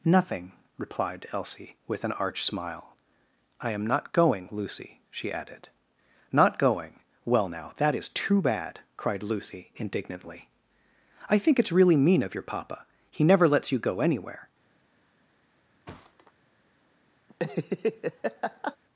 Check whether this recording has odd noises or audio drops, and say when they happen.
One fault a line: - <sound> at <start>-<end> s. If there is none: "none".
- thud at 15.9-16.3 s
- laugh at 17.3-18.8 s